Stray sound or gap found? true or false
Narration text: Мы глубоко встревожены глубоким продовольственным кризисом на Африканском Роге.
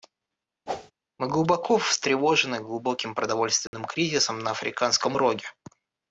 true